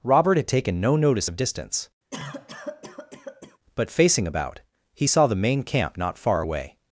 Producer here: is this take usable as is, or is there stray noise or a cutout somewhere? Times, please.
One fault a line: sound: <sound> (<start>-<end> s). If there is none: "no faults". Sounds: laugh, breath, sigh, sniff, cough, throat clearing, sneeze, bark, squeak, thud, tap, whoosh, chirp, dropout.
sound: cough (2.1-3.6 s)